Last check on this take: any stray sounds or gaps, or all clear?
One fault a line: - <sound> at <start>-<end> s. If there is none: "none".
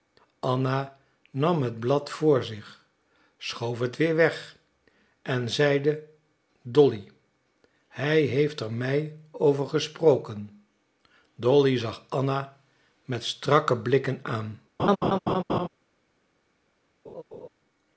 - laugh at 14.8-15.7 s
- laugh at 17.1-17.5 s